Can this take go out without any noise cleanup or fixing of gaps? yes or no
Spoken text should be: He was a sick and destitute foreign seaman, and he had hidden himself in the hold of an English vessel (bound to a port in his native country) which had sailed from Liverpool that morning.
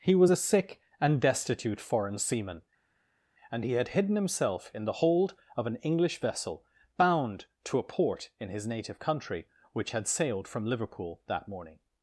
yes